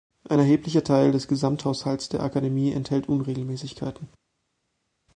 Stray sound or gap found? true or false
false